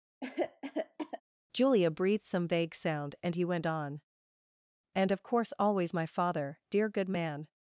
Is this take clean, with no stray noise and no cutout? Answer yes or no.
no